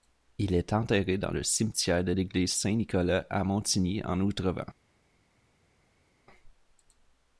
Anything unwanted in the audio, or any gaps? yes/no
no